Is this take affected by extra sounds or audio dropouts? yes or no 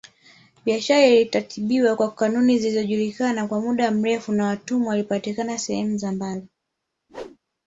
yes